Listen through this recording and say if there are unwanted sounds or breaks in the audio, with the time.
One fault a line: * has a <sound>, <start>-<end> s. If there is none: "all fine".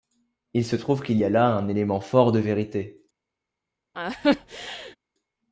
* has a laugh, 3.9-5.0 s